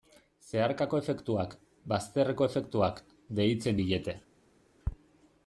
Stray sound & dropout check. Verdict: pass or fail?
pass